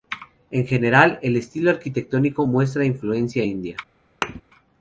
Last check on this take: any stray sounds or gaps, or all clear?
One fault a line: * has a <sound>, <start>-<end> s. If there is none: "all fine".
* has a thud, 4.2-4.4 s